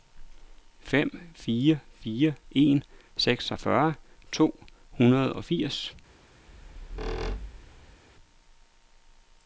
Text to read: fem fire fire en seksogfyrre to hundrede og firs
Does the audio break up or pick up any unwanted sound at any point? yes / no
yes